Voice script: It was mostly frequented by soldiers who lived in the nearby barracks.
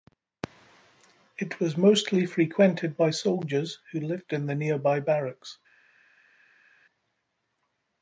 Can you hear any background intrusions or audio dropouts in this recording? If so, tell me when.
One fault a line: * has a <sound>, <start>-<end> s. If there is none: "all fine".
all fine